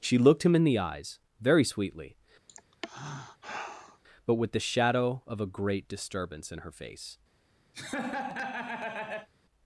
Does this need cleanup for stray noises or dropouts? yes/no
yes